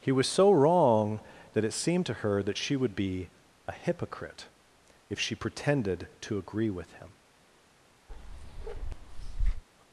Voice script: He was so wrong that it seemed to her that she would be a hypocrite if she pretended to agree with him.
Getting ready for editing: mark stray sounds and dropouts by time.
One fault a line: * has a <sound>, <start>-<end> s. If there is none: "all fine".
* has a bark, 8.1-9.6 s